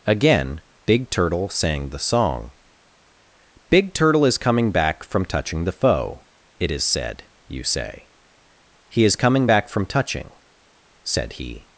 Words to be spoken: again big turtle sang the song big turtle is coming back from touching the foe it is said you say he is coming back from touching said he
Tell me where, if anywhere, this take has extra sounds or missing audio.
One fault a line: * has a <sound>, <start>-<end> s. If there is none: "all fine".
all fine